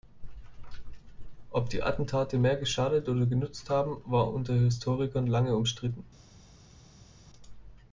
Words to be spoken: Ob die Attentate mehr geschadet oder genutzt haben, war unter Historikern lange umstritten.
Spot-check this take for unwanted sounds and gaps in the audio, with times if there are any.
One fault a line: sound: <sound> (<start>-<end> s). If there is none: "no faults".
no faults